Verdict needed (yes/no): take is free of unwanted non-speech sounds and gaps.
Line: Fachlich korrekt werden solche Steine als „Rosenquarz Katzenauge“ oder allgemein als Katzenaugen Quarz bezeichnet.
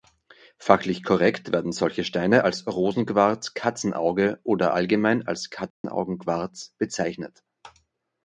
no